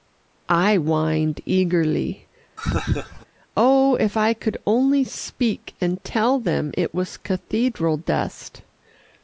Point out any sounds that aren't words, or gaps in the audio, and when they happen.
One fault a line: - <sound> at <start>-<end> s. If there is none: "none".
- laugh at 2.6-3.3 s